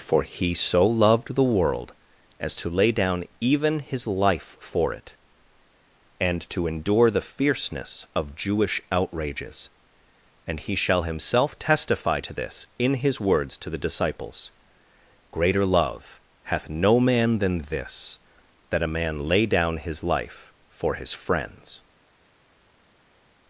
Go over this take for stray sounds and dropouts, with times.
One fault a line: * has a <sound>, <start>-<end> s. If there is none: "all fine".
all fine